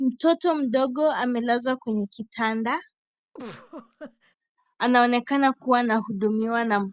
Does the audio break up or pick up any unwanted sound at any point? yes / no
yes